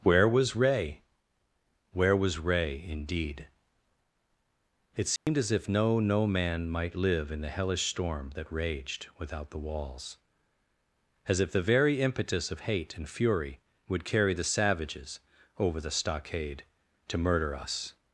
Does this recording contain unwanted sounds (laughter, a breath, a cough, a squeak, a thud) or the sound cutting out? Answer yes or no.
yes